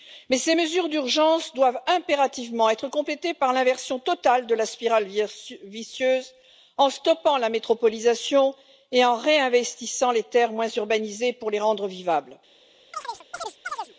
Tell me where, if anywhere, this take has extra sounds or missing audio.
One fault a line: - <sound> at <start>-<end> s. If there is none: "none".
- chirp at 12.9-13.9 s